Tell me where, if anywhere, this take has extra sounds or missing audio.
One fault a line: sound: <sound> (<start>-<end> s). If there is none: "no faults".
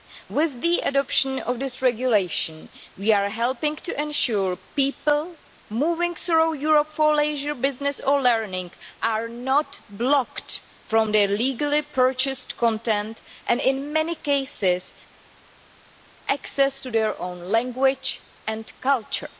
no faults